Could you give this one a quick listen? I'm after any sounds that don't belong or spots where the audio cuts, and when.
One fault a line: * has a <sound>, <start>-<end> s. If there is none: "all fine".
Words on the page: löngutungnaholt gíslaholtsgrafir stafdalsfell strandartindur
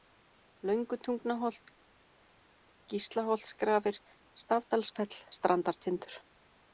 all fine